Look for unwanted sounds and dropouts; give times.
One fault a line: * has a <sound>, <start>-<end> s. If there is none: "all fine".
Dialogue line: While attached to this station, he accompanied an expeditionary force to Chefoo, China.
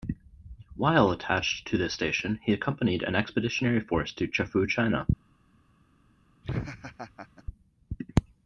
* has a laugh, 6.4-7.4 s